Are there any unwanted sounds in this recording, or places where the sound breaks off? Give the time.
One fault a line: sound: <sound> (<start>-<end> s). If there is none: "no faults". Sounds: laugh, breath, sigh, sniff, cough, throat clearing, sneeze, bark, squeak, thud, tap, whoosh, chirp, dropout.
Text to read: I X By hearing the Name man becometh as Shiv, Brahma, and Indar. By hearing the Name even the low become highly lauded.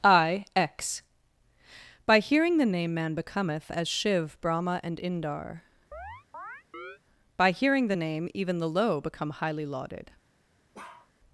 sound: chirp (5.9-7.0 s)
sound: bark (10.7-11.1 s)